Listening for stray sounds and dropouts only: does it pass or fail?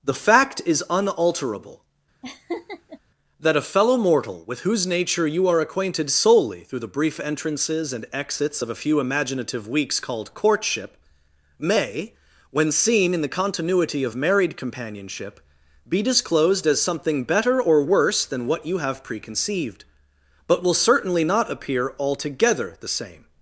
fail